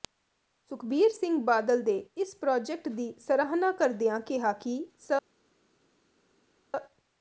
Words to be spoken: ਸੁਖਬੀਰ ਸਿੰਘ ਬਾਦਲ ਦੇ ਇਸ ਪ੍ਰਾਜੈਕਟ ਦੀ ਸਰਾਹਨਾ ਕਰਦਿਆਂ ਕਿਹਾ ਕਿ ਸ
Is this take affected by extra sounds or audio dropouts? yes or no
no